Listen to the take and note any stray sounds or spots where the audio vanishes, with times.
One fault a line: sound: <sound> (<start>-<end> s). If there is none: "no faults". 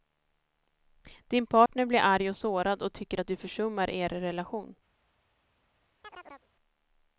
sound: dropout (1.7-1.7 s)
sound: chirp (6.0-6.5 s)